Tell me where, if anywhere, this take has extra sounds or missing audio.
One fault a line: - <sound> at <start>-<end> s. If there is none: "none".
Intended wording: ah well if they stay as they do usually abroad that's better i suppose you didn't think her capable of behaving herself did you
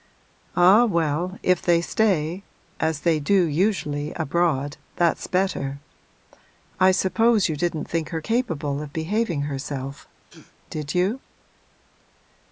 - sneeze at 10.2-10.6 s